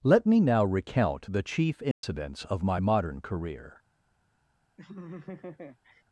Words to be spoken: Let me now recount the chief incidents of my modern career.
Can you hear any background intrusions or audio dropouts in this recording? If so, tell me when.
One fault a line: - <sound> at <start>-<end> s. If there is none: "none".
- dropout at 1.9-2.0 s
- laugh at 4.8-6.0 s